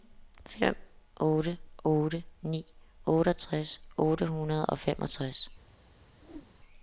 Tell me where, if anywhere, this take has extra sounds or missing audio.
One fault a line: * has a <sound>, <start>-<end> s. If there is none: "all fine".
* has a whoosh, 6.2-6.6 s